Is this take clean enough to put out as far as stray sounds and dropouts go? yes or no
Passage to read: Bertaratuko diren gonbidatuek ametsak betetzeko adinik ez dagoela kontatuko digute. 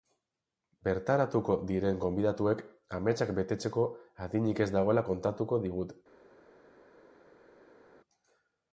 yes